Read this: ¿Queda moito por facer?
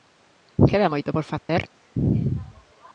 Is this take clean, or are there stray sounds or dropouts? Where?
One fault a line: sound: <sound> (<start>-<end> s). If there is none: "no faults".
sound: dropout (1.4-1.5 s)